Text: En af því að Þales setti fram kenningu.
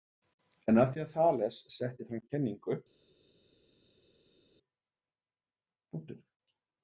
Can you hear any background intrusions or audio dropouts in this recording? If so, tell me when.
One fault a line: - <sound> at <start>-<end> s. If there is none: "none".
none